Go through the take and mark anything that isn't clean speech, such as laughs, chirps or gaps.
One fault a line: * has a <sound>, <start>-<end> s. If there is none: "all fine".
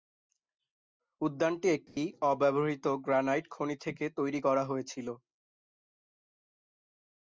* has a dropout, 1.9-2.0 s